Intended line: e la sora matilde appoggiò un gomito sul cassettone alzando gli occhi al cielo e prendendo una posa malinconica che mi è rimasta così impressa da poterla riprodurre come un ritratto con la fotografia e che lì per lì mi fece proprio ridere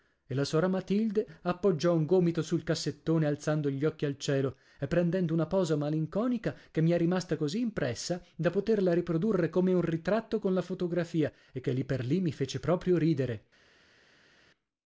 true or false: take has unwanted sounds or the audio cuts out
false